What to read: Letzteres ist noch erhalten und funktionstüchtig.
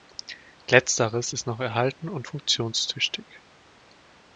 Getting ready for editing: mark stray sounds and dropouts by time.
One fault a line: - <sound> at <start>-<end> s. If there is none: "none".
none